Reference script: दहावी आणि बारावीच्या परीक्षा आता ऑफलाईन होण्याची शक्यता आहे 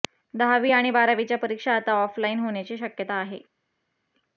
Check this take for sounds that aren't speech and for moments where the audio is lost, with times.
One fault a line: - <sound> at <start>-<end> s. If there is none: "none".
none